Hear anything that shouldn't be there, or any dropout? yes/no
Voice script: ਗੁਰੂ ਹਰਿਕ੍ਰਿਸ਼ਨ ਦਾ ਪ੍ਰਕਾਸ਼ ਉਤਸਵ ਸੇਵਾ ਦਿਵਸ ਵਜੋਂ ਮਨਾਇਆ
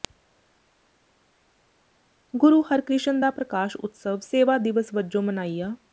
no